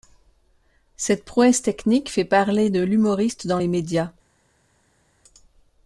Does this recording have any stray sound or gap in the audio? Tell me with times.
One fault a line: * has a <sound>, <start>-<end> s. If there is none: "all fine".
all fine